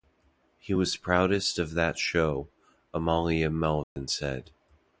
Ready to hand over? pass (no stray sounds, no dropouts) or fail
fail